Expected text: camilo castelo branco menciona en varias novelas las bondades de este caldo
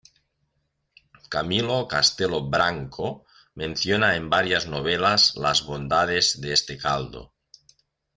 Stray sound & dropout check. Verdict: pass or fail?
pass